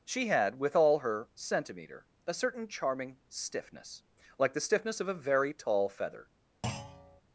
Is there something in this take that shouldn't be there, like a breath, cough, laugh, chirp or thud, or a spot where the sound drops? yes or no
yes